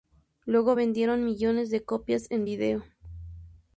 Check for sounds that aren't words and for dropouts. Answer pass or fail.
pass